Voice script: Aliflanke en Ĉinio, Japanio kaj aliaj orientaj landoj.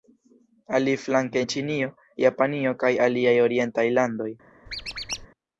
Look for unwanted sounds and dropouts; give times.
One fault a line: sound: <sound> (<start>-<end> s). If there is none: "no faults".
sound: squeak (4.7-5.3 s)